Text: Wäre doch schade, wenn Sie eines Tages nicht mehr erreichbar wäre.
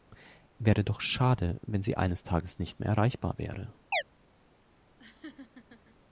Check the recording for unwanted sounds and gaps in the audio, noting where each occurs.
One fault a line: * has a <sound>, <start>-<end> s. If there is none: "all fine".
* has a chirp, 3.9-4.0 s
* has a laugh, 5.0-6.0 s